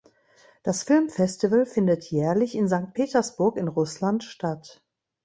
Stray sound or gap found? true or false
false